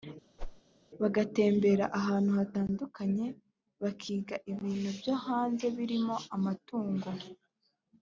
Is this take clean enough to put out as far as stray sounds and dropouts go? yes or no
no